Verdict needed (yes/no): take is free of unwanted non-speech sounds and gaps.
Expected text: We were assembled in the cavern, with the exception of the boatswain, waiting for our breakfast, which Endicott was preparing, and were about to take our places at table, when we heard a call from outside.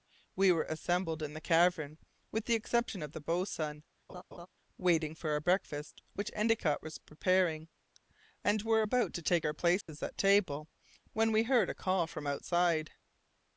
no